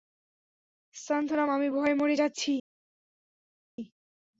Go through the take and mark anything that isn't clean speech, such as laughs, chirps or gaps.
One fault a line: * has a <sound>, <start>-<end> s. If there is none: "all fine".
all fine